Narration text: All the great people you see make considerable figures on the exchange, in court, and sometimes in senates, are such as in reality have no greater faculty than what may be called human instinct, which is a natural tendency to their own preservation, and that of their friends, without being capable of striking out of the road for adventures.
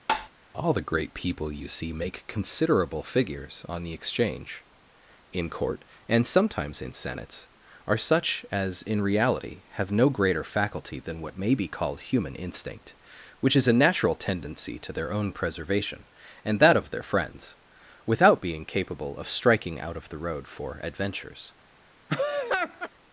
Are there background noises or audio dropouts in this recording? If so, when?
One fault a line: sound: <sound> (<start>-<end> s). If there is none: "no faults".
sound: tap (0.1-0.3 s)
sound: laugh (22.1-22.9 s)